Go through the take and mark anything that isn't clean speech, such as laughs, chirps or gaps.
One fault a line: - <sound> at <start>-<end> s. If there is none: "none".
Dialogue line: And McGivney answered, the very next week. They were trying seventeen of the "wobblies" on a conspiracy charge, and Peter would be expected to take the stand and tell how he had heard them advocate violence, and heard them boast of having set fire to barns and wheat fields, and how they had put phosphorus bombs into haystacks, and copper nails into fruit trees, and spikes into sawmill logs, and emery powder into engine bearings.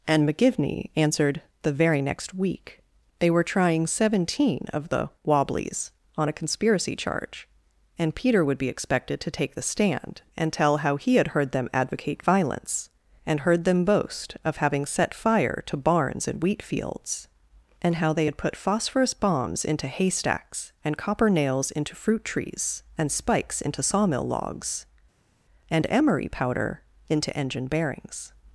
none